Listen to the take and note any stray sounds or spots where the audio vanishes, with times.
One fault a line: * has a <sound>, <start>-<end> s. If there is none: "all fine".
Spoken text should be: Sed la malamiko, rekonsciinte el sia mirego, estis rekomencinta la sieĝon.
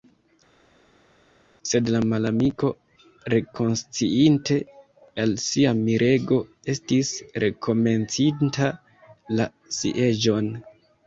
all fine